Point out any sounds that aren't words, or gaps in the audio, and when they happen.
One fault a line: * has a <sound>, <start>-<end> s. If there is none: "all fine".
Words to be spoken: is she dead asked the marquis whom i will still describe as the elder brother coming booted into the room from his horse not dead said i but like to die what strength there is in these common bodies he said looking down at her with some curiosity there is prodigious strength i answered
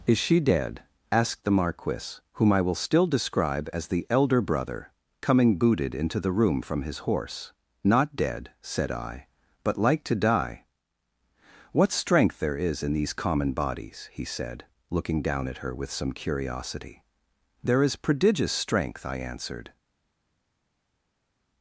all fine